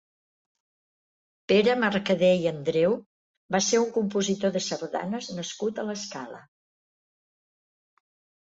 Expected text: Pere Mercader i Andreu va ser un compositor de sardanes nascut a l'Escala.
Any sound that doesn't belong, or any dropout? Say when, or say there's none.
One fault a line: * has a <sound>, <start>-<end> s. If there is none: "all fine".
all fine